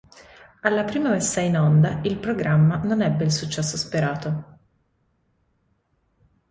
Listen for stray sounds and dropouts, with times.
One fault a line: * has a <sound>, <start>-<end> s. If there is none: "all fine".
all fine